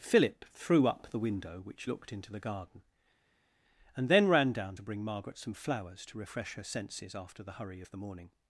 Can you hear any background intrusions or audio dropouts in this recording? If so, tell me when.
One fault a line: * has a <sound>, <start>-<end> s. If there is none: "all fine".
all fine